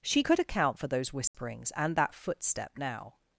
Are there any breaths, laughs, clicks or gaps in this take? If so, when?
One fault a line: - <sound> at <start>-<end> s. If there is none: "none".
- dropout at 1.3-1.3 s